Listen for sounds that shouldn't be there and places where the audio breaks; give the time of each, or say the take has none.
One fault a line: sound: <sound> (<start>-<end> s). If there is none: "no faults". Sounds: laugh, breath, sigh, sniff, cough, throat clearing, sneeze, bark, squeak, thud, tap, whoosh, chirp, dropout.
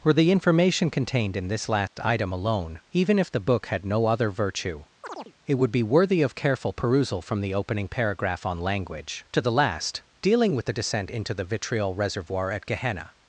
sound: dropout (1.9-2.0 s)
sound: chirp (5.0-5.3 s)